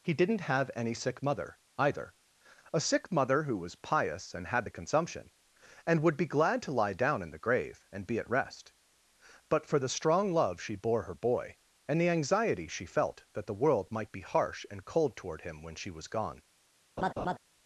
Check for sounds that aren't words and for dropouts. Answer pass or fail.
fail